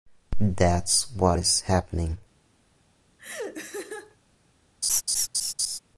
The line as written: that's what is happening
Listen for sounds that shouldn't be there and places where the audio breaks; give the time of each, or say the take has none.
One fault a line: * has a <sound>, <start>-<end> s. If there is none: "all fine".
* has a laugh, 3.2-4.2 s
* has a laugh, 4.8-5.8 s